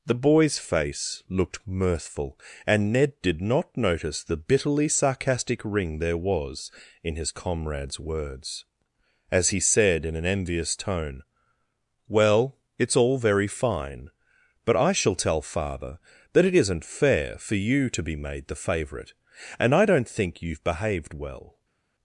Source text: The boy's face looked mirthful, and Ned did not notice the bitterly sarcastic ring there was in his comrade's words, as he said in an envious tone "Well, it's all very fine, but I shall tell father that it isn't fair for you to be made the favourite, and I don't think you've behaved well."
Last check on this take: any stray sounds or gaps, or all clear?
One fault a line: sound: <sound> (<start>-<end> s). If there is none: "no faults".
no faults